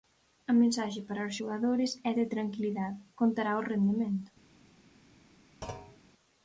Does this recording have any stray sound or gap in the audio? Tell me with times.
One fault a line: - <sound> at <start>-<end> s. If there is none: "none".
- thud at 5.6-6.0 s